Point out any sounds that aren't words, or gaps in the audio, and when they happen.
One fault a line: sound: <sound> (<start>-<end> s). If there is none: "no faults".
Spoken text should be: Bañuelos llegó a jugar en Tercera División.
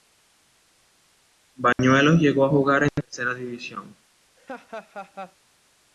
sound: dropout (1.7-1.8 s)
sound: laugh (4.4-5.4 s)